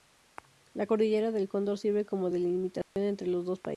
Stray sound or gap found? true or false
true